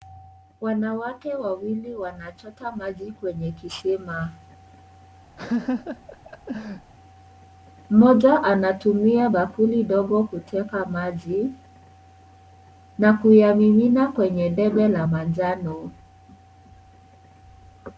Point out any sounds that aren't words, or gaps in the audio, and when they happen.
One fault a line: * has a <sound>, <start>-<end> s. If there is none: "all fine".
* has a laugh, 5.4-6.9 s